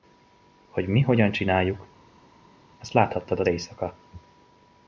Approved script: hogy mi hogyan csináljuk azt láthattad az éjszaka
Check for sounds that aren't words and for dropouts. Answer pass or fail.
pass